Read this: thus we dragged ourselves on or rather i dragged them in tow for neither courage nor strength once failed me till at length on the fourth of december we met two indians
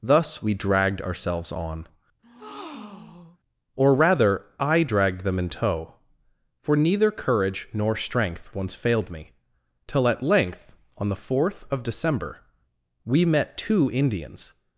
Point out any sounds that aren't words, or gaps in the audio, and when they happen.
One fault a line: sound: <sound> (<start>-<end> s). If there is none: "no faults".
sound: breath (2.2-3.4 s)